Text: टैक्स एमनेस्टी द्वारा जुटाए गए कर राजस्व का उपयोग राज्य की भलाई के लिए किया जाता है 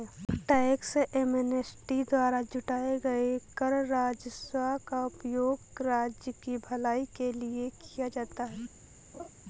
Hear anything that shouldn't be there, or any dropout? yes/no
yes